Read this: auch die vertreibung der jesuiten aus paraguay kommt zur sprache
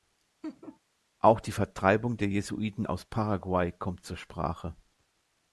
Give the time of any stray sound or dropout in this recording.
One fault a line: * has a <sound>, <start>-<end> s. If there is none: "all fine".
* has a laugh, 0.4-0.8 s